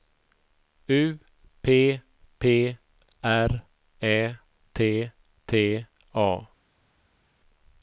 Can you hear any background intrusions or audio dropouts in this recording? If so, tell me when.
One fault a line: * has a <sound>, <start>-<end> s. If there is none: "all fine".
all fine